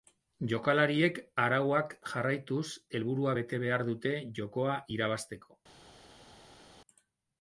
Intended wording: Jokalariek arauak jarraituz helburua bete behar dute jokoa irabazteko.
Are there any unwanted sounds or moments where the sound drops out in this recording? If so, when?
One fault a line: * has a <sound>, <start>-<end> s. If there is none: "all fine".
all fine